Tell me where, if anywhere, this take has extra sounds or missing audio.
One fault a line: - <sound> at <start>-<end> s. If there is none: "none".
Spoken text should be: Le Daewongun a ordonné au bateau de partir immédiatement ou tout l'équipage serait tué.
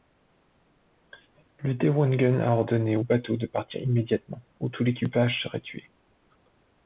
none